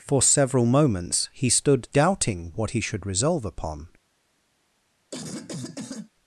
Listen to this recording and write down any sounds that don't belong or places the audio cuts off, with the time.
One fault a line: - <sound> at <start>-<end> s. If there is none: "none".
- cough at 5.1-6.1 s